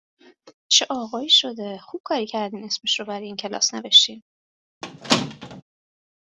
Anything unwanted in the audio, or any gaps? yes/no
yes